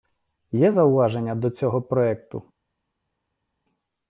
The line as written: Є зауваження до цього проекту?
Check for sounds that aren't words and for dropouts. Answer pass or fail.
pass